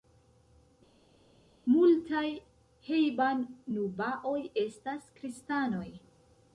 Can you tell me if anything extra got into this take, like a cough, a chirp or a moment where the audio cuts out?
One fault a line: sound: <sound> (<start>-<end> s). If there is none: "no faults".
no faults